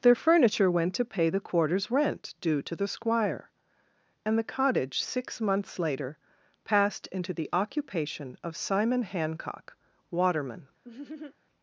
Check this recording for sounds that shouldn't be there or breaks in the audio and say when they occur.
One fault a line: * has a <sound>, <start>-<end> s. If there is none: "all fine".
* has a laugh, 10.8-11.4 s